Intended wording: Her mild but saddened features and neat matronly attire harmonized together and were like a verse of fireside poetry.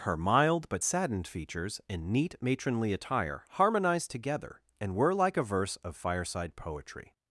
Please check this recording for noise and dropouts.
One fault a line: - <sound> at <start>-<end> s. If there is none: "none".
none